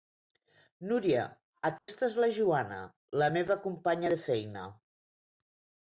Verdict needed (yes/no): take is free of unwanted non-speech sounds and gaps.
no